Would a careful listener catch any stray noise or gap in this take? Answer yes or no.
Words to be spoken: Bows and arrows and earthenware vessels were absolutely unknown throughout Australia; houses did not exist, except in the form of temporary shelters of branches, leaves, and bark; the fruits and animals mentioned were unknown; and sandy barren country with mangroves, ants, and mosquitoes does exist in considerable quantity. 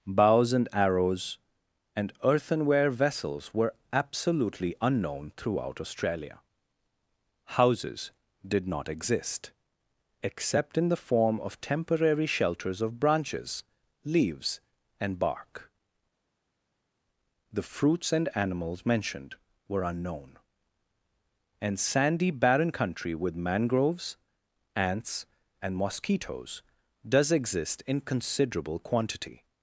no